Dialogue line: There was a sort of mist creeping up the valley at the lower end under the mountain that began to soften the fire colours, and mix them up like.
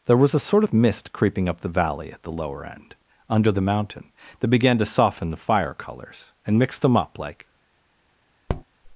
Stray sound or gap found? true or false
true